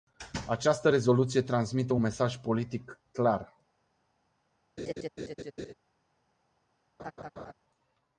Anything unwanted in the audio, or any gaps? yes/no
yes